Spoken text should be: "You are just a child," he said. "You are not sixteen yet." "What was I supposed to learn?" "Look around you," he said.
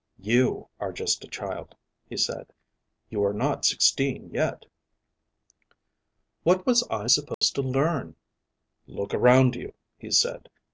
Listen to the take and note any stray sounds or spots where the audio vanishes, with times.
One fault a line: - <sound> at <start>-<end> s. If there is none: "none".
- dropout at 7.3-7.4 s